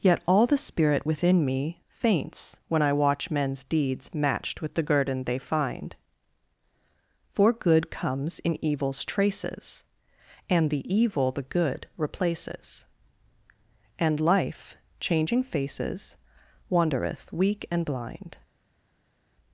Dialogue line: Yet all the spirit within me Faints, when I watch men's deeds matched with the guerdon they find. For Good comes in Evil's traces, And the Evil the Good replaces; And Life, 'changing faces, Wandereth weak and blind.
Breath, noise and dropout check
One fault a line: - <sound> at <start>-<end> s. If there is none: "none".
none